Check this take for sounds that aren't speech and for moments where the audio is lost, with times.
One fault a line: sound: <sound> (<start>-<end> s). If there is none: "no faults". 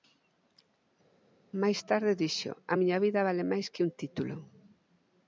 no faults